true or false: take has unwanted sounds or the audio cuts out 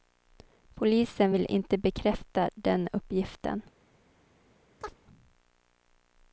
true